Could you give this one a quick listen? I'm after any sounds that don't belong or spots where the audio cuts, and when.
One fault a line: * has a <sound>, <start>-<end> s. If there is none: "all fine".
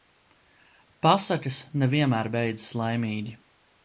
all fine